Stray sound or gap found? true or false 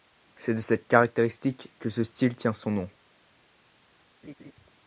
true